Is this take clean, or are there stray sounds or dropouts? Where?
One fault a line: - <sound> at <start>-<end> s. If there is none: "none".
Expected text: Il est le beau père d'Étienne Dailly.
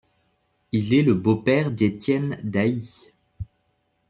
none